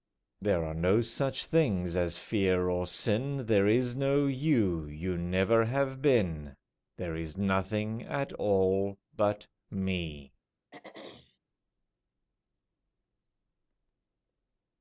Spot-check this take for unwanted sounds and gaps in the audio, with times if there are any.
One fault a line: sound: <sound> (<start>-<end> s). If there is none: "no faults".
sound: throat clearing (10.7-11.4 s)